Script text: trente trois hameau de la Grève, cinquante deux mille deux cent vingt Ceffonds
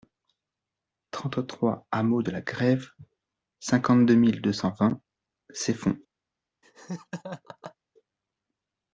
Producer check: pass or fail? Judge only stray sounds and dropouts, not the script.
fail